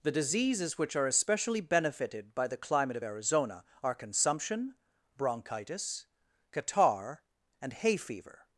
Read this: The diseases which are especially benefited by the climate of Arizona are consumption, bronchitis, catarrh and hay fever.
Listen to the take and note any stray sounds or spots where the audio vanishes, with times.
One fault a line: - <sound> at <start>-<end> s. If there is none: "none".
none